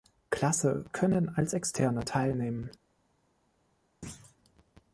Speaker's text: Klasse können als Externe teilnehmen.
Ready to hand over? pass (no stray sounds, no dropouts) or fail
fail